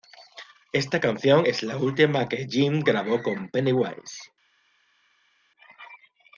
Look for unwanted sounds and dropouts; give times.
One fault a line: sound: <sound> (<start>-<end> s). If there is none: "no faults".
no faults